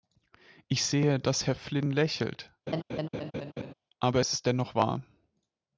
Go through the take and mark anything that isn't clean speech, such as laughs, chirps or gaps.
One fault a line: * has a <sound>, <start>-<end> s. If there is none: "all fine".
* has a laugh, 2.7-3.7 s